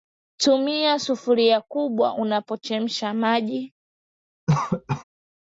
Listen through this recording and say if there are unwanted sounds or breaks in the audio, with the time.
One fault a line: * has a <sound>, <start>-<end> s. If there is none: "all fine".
* has a cough, 4.5-5.0 s